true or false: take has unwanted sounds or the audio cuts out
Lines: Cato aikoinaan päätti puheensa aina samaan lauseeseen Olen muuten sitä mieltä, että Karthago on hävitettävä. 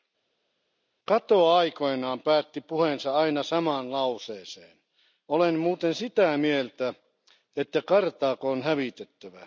false